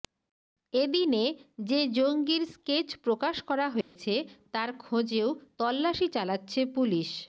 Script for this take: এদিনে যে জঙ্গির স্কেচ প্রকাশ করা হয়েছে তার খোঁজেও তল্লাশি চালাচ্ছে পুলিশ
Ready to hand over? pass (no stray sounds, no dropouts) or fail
fail